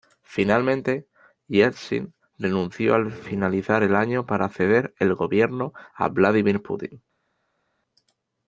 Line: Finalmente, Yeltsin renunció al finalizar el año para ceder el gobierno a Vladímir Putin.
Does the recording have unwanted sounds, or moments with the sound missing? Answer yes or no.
no